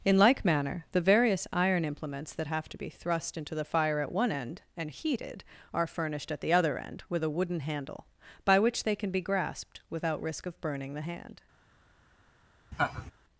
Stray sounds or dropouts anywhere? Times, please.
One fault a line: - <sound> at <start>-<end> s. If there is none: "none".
- laugh at 12.7-13.1 s